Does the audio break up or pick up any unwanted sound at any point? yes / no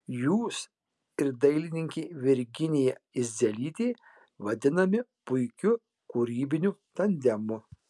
no